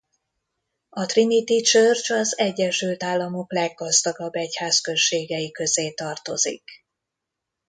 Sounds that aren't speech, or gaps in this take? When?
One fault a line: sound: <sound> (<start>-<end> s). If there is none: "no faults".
no faults